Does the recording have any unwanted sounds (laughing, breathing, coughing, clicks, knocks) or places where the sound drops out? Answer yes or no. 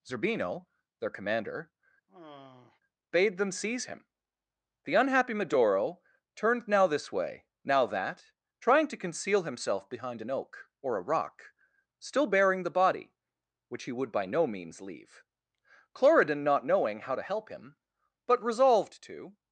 yes